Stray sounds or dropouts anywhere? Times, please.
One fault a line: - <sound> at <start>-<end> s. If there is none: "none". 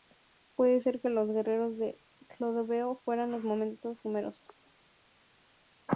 none